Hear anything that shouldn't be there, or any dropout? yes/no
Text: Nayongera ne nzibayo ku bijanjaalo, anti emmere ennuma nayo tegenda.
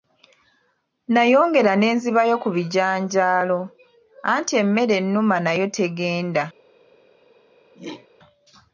yes